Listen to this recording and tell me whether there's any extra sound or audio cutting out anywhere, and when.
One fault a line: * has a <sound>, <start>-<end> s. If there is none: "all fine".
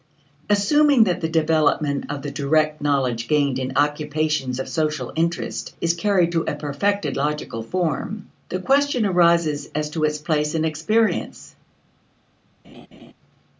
* has a laugh, 12.6-13.1 s